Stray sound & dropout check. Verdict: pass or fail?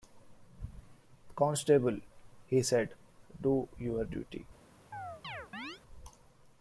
fail